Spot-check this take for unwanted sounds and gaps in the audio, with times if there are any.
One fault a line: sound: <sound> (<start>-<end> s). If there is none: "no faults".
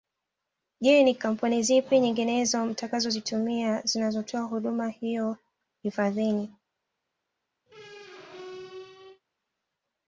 sound: squeak (7.7-9.2 s)